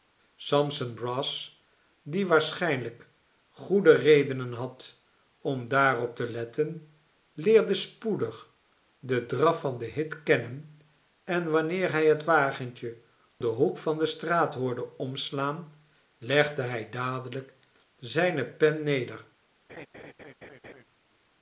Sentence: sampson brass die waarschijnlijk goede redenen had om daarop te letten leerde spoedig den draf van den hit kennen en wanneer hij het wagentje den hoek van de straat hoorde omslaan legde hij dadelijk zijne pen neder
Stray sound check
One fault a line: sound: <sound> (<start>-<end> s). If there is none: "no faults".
sound: laugh (19.7-20.8 s)